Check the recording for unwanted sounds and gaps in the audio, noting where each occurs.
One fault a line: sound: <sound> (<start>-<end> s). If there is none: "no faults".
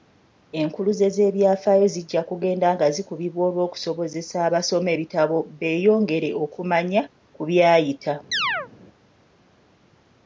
sound: chirp (8.3-8.7 s)